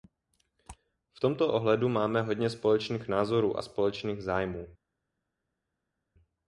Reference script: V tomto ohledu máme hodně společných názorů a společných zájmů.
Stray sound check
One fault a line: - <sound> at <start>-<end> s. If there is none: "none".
none